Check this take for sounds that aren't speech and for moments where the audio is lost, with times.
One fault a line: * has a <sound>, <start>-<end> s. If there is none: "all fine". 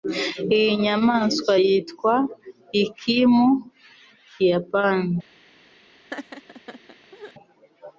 * has a laugh, 6.1-7.3 s